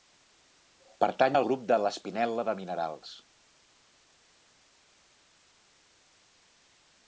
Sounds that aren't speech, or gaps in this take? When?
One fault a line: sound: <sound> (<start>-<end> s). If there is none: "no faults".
no faults